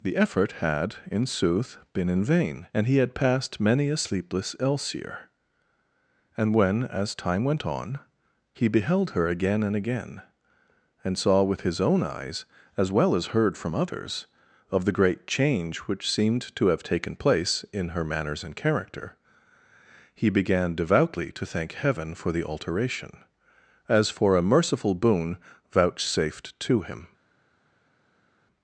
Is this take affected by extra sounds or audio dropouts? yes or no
no